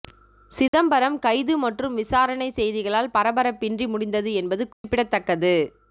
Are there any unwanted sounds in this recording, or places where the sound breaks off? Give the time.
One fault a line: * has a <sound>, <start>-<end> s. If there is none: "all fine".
* has a dropout, 0.7-0.7 s
* has a dropout, 4.7-4.8 s